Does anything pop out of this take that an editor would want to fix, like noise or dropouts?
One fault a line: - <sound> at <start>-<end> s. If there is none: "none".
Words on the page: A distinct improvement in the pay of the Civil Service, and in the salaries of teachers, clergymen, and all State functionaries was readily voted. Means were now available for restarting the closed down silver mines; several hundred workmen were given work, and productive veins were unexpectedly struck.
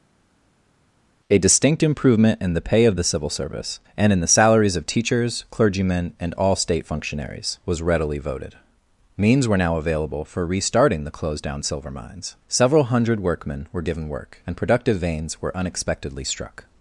none